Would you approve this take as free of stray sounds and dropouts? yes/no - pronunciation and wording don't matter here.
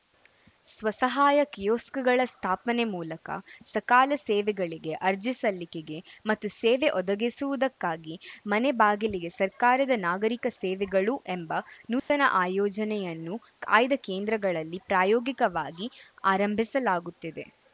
no